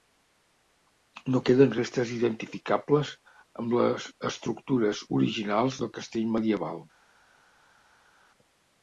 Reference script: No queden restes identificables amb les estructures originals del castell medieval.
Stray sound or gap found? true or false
false